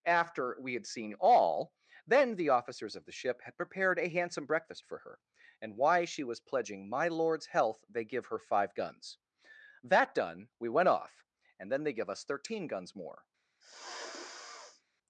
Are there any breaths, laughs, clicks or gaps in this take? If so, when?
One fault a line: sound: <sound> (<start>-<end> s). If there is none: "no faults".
sound: sniff (13.6-14.8 s)